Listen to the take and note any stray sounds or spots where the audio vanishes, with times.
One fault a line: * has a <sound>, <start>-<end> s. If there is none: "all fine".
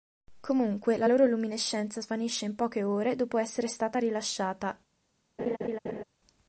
* has a laugh, 5.4-6.0 s